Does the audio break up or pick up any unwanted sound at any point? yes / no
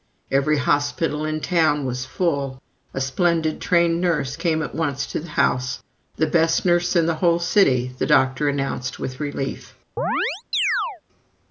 yes